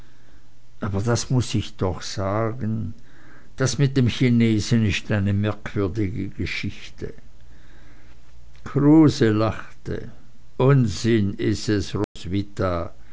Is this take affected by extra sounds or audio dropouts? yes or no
yes